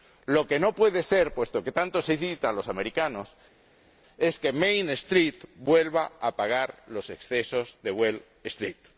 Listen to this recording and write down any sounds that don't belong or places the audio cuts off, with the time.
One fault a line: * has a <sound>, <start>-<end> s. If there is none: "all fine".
all fine